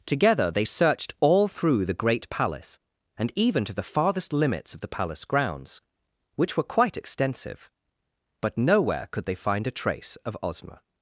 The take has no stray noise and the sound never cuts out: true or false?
true